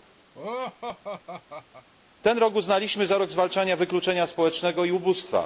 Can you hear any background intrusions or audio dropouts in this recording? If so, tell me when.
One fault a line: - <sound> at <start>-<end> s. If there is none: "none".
- laugh at 0.3-1.9 s